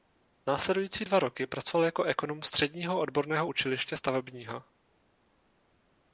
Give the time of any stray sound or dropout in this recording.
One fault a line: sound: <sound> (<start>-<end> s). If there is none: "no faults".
no faults